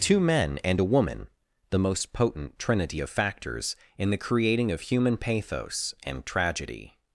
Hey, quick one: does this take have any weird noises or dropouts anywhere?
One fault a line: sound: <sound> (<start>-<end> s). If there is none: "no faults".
no faults